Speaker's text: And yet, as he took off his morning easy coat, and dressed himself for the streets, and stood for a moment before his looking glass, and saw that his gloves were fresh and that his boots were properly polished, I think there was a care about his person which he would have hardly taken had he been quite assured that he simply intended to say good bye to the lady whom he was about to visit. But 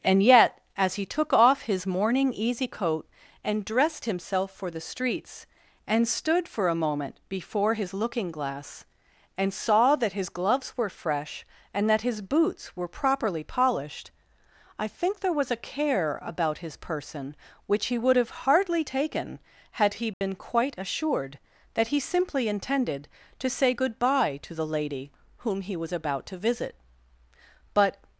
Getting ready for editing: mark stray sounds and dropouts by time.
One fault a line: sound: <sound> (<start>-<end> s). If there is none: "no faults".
sound: dropout (20.1-20.2 s)